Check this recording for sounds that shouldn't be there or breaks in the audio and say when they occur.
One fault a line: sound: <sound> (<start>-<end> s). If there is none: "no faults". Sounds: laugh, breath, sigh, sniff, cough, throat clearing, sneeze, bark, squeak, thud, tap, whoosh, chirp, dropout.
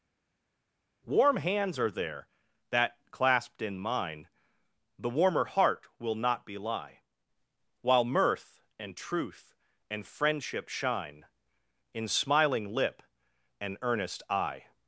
no faults